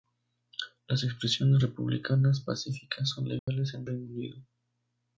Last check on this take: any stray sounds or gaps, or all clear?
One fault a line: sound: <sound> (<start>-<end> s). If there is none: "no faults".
sound: dropout (3.4-3.5 s)